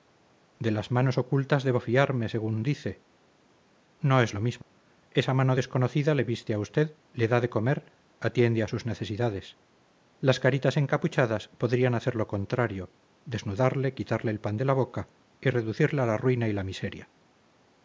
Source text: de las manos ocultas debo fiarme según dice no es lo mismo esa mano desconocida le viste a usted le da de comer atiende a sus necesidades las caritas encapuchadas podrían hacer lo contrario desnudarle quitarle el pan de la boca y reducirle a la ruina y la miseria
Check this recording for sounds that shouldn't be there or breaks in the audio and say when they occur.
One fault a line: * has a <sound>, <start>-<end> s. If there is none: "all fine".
* has a dropout, 4.6-4.7 s